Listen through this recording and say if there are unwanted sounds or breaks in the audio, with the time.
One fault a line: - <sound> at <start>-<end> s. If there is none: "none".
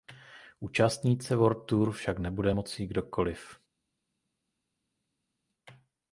none